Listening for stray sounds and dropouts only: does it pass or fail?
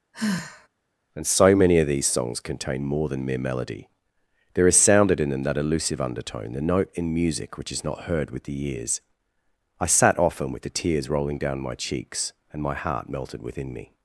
fail